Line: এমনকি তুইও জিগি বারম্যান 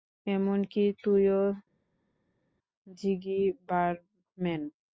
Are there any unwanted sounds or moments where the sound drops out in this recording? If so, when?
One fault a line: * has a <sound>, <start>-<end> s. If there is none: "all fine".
all fine